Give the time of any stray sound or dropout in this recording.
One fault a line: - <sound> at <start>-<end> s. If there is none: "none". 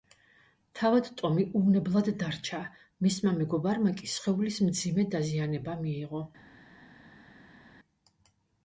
none